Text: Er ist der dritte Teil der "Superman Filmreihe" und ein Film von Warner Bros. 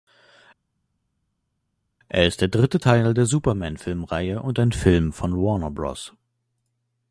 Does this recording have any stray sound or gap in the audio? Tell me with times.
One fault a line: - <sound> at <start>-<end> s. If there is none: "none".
none